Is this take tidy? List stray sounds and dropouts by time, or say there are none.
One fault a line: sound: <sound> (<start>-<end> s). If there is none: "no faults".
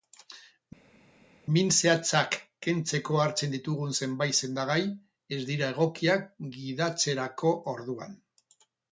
no faults